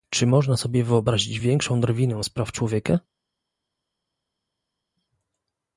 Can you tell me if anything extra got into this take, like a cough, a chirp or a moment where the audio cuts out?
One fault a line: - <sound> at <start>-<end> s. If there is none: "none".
none